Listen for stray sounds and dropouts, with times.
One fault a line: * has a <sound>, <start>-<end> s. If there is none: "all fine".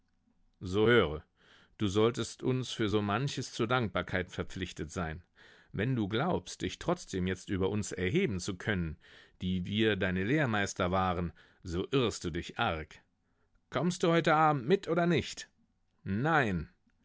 all fine